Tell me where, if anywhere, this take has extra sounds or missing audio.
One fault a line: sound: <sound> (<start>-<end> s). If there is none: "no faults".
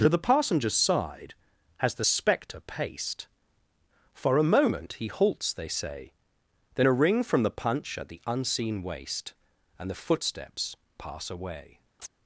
sound: chirp (12.0-12.1 s)